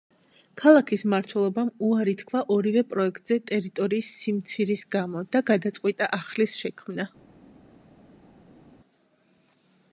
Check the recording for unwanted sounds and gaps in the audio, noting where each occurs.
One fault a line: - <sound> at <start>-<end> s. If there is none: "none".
none